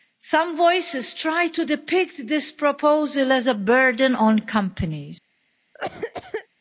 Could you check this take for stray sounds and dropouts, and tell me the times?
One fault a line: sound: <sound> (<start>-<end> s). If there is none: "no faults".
sound: cough (5.7-6.5 s)